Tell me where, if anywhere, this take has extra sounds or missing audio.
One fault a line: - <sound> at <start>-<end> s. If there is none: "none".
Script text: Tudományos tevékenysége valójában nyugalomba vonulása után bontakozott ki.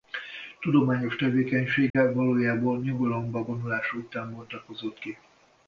- dropout at 1.9-1.9 s